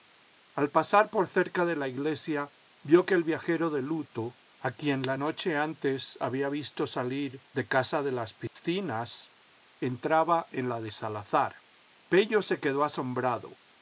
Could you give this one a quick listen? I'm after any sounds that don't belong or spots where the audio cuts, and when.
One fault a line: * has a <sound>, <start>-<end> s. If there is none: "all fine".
* has a dropout, 8.5-8.6 s